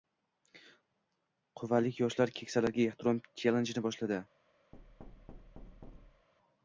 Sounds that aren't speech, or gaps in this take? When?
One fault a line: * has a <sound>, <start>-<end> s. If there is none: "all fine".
* has a thud, 4.7-6.3 s